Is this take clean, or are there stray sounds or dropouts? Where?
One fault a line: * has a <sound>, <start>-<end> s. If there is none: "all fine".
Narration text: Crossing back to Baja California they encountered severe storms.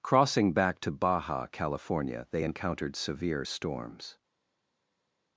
all fine